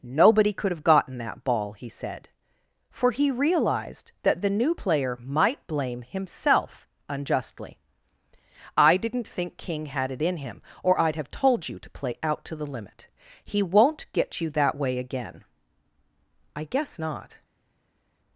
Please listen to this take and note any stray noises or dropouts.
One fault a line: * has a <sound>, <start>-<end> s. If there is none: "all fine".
all fine